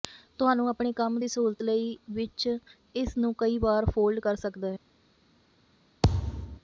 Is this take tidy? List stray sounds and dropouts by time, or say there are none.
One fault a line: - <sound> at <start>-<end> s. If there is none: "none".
- thud at 6.0-6.6 s